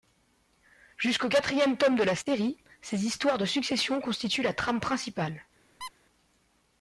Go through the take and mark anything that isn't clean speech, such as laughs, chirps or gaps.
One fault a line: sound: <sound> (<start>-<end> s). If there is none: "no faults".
sound: squeak (5.8-5.9 s)